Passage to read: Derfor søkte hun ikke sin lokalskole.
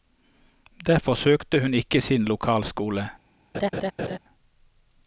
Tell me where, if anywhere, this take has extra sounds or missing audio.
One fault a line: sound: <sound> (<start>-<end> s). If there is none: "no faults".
sound: laugh (3.5-4.2 s)